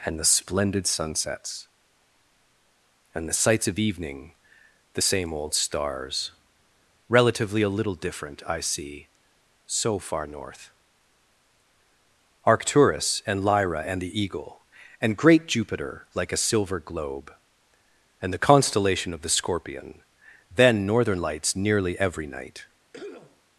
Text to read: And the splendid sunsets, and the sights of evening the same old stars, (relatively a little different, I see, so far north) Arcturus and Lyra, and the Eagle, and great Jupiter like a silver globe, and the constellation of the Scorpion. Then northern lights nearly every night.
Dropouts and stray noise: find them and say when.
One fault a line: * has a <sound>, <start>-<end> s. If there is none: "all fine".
* has a cough, 22.9-23.4 s